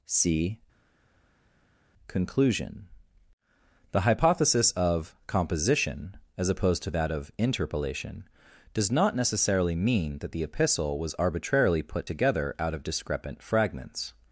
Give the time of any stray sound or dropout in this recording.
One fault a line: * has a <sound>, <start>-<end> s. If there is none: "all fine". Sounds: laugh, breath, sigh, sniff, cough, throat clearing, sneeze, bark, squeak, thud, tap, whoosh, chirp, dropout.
all fine